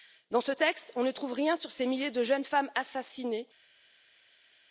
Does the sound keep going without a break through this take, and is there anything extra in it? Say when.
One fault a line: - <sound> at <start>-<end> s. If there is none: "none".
none